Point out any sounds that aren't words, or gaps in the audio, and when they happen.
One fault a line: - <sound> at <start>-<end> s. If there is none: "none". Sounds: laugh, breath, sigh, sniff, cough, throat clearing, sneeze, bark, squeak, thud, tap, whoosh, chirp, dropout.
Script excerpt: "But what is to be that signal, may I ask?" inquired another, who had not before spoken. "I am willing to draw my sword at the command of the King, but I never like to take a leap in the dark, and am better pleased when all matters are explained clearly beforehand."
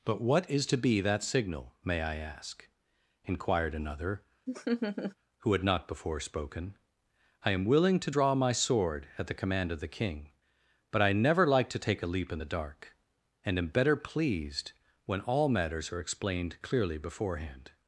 - laugh at 4.5-5.2 s